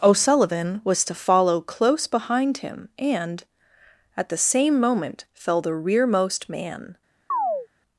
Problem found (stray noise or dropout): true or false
true